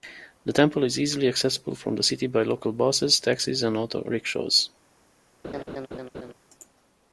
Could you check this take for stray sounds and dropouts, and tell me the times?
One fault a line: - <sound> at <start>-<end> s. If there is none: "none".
- laugh at 5.4-6.3 s